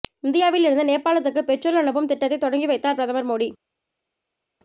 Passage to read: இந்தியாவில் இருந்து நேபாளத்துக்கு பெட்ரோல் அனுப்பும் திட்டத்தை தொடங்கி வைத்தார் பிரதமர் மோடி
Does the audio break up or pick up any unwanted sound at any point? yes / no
no